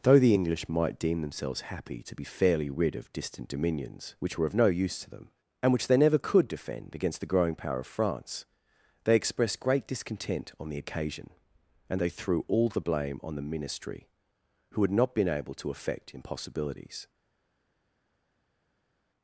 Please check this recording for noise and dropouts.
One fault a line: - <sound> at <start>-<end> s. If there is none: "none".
none